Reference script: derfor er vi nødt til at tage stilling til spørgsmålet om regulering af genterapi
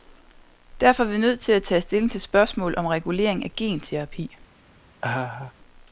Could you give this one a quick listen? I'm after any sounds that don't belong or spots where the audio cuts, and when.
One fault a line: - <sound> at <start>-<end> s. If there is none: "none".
- laugh at 5.0-5.5 s